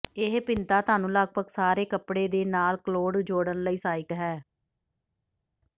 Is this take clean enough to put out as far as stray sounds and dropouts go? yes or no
yes